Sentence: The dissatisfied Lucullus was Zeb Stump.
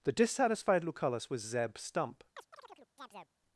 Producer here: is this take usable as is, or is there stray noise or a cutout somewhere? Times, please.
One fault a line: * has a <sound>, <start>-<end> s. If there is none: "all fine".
* has a chirp, 2.4-3.3 s